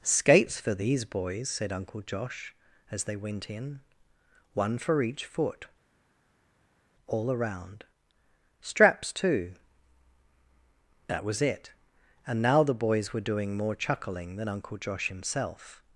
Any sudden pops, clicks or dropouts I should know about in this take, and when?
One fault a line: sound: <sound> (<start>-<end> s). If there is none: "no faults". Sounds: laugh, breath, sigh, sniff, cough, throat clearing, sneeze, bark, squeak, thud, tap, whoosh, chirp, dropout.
no faults